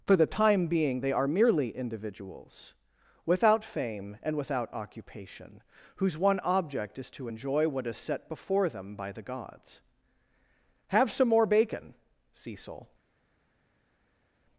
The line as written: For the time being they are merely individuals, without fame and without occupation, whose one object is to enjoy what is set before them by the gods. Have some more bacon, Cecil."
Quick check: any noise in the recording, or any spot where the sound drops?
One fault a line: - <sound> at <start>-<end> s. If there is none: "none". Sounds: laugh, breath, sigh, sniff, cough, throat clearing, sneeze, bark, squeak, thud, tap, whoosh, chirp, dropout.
none